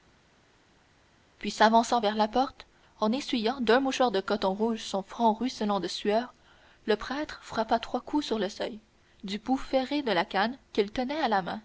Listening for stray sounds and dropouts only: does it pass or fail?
pass